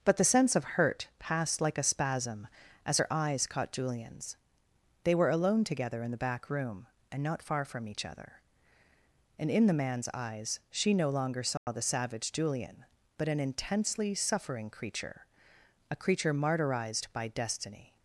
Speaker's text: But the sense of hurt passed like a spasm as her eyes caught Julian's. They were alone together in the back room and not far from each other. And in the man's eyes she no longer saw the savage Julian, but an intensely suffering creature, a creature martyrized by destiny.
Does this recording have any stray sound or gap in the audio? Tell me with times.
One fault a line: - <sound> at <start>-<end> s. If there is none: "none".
- dropout at 11.6-11.7 s